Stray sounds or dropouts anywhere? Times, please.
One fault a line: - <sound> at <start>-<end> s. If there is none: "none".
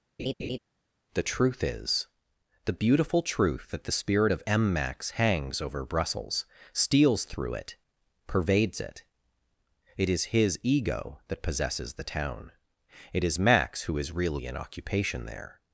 - laugh at 0.2-0.6 s